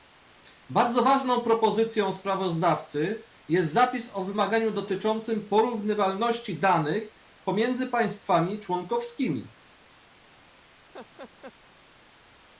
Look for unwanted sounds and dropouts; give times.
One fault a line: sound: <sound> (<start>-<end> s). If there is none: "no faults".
sound: laugh (10.9-11.5 s)